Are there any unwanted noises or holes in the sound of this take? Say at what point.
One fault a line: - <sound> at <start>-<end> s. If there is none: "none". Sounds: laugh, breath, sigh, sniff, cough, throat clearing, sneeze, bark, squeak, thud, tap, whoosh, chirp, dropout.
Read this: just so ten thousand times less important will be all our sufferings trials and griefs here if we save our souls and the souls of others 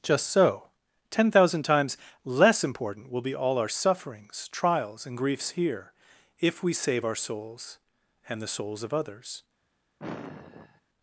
- sigh at 10.0-10.8 s